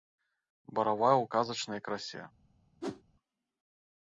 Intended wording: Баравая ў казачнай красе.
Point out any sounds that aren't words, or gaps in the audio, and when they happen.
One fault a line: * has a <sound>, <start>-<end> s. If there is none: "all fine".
* has a whoosh, 2.8-3.0 s